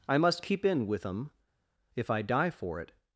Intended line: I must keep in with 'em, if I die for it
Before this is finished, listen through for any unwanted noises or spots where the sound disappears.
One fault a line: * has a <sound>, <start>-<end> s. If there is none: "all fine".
all fine